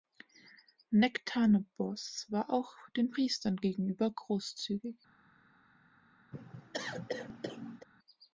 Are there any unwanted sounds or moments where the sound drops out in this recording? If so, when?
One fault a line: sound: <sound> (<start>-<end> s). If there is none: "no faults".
sound: cough (6.3-7.9 s)